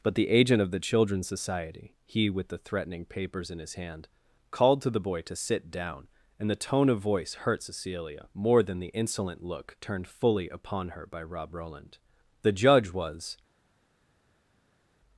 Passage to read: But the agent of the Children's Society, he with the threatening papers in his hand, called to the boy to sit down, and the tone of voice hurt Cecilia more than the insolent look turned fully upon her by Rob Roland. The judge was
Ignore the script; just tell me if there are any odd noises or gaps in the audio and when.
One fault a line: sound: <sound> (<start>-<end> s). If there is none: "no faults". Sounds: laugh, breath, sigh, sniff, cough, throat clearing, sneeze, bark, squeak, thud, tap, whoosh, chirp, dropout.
no faults